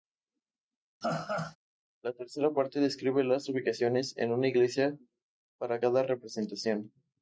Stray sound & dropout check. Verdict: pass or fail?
fail